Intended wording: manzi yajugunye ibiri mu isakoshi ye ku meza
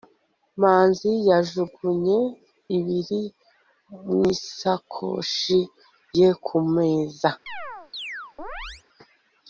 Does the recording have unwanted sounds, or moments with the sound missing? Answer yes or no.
yes